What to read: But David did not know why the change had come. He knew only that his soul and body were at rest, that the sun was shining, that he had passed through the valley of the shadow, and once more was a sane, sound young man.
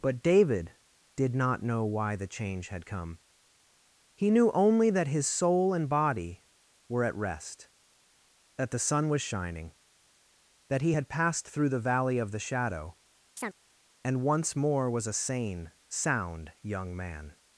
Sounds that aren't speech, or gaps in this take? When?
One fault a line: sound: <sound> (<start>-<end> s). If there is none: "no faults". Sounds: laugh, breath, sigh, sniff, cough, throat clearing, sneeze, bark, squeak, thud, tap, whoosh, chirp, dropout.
sound: chirp (13.4-13.5 s)